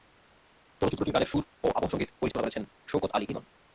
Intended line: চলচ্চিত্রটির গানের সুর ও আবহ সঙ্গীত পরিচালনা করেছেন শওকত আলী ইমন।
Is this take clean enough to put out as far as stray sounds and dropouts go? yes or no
no